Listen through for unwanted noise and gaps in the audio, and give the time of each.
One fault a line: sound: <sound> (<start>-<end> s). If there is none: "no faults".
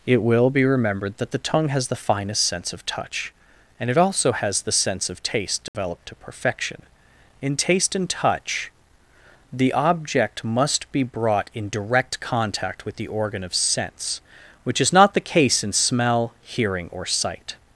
sound: dropout (5.7-5.7 s)